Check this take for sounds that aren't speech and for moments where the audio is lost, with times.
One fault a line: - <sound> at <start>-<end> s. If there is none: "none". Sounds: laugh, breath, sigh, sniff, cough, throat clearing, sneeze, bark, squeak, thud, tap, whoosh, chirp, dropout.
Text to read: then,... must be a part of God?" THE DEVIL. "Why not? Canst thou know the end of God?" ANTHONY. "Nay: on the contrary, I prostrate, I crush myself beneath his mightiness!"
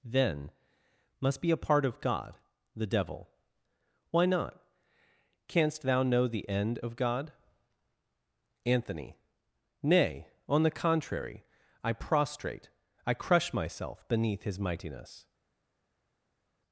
none